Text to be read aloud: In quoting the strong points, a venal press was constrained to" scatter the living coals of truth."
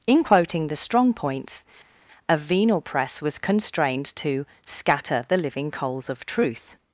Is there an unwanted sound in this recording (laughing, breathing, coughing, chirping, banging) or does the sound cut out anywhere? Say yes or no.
no